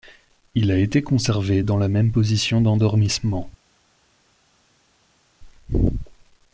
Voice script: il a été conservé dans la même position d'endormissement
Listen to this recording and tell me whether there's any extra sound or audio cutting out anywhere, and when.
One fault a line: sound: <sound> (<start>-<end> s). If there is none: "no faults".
no faults